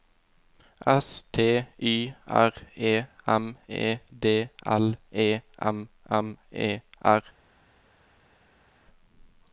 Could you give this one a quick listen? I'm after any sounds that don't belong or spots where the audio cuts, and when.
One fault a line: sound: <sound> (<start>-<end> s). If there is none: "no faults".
no faults